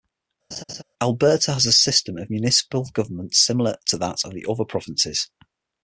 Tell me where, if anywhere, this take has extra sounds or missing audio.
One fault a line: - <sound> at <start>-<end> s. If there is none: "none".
- laugh at 0.5-0.8 s